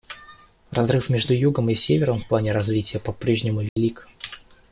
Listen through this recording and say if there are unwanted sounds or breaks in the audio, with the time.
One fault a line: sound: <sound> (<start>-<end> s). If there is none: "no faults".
sound: dropout (3.7-3.8 s)